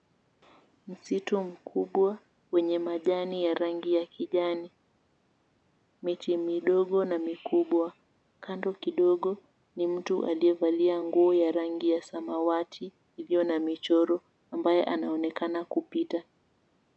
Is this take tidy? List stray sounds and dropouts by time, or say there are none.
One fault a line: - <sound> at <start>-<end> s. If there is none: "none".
none